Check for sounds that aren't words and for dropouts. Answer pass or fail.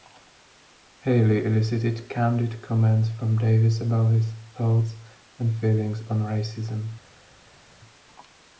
pass